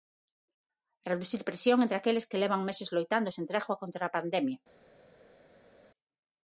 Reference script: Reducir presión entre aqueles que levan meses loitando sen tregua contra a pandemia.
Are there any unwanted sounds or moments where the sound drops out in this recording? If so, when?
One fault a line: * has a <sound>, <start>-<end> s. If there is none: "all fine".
all fine